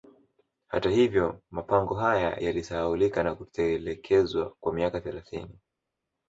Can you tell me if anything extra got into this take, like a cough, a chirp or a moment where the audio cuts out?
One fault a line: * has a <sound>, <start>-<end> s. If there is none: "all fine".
all fine